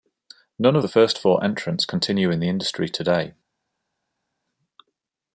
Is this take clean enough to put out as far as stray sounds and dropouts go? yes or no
yes